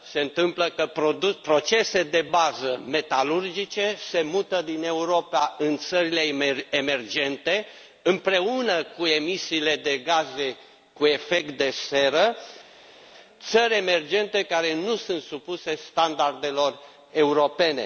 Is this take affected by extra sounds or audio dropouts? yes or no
no